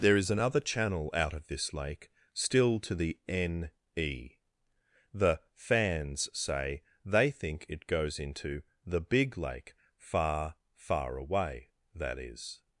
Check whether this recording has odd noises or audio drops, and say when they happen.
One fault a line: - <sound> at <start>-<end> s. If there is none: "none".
none